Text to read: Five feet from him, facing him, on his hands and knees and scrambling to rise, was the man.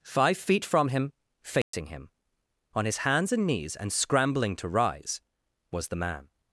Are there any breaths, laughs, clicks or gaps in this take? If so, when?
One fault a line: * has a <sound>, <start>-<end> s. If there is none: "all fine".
* has a dropout, 1.6-1.7 s